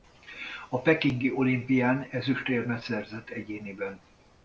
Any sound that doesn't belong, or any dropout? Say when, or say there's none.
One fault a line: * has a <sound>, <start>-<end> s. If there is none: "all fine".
all fine